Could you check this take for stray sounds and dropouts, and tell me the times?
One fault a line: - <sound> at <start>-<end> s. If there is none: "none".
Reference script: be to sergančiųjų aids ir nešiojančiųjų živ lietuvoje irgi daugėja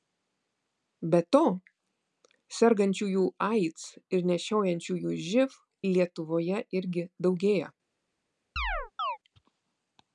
- chirp at 8.6-9.2 s